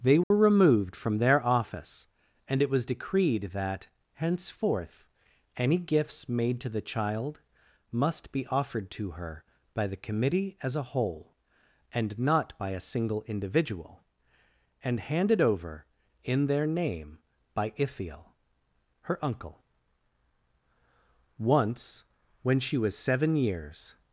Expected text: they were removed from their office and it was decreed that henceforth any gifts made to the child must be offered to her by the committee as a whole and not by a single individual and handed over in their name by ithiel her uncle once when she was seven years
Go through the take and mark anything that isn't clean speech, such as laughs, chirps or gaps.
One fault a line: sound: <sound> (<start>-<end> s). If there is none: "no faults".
sound: dropout (0.2-0.3 s)